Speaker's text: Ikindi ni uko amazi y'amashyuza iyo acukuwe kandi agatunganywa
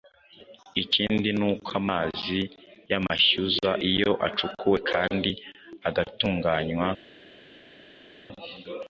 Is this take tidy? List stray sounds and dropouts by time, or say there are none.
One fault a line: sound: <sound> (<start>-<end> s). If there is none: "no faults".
no faults